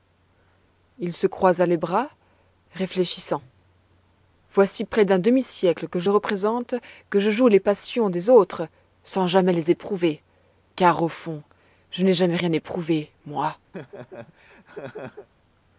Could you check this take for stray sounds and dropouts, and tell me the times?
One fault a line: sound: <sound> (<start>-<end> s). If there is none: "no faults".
sound: laugh (13.7-15.3 s)